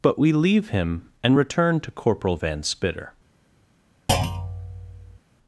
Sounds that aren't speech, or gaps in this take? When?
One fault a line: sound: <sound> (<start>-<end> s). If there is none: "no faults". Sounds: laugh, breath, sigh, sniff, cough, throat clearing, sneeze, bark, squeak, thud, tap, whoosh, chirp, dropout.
sound: thud (4.1-5.2 s)